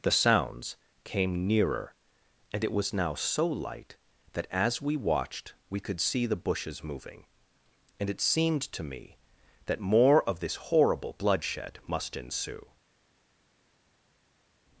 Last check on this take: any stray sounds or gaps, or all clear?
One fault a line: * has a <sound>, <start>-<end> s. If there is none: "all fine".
all fine